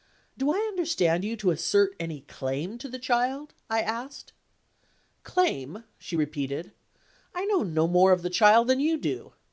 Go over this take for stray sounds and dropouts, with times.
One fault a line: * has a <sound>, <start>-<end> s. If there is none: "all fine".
all fine